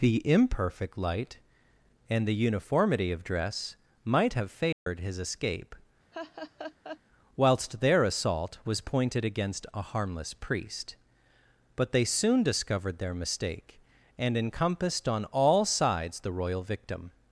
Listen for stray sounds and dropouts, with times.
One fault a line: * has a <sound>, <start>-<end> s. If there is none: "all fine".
* has a dropout, 4.7-4.9 s
* has a laugh, 6.1-7.0 s